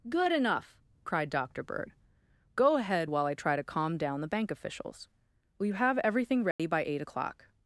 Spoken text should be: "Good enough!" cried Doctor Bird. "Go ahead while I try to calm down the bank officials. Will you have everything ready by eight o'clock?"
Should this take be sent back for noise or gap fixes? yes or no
yes